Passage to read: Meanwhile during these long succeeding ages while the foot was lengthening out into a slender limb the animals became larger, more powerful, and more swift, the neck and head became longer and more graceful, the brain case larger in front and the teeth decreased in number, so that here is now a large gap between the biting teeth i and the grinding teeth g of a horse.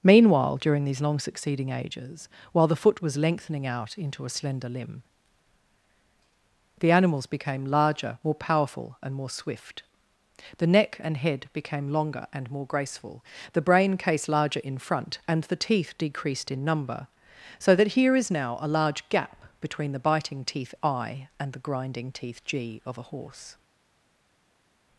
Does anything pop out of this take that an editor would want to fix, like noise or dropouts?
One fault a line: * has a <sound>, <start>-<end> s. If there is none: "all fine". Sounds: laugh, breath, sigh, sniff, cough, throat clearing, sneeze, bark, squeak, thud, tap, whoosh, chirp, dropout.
all fine